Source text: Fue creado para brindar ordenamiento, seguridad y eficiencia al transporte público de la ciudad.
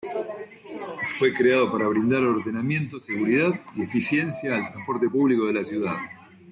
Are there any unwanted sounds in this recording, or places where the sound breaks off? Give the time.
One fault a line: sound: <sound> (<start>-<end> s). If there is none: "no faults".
no faults